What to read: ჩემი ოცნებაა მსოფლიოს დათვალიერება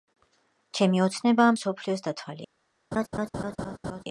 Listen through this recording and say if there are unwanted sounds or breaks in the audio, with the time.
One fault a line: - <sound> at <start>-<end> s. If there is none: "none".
- laugh at 2.9-4.0 s